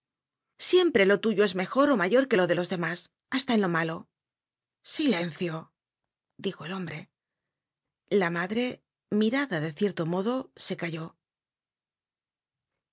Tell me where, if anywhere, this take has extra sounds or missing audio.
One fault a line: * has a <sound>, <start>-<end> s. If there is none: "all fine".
all fine